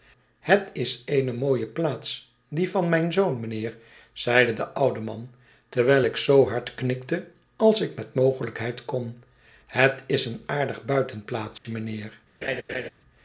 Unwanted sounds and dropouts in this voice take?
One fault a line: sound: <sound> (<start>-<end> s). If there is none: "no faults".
sound: dropout (11.6-11.6 s)
sound: laugh (12.4-12.9 s)